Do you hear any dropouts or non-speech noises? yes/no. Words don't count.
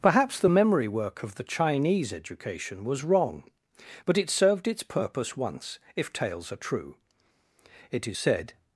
no